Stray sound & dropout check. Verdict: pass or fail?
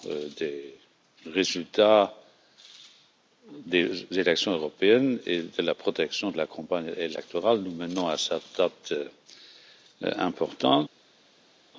pass